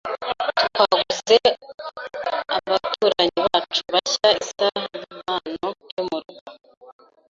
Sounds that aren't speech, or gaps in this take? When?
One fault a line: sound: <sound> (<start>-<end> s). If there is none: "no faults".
no faults